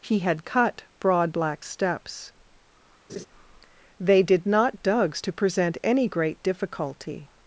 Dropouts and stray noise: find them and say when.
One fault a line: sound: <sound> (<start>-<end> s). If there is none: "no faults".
sound: laugh (3.1-3.3 s)